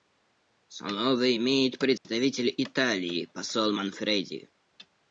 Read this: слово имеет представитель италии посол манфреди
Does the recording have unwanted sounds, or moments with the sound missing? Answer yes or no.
yes